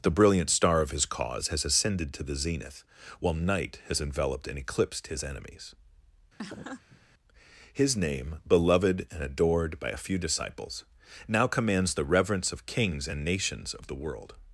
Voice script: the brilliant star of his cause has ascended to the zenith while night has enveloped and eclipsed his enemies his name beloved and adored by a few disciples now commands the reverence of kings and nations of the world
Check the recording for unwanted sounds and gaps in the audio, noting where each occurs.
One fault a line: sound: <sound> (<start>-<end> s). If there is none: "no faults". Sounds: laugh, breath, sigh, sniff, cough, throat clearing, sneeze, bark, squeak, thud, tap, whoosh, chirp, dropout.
sound: laugh (6.4-7.0 s)